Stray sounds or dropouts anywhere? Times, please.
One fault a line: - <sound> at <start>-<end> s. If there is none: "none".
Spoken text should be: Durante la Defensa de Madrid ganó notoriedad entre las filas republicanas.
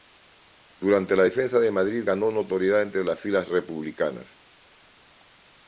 none